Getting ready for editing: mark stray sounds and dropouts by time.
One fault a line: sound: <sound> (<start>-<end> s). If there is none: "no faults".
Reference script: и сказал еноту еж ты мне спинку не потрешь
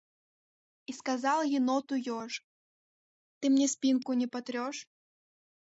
no faults